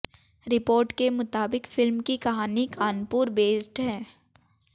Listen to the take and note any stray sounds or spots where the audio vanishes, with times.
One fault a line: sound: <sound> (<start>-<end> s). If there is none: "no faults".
no faults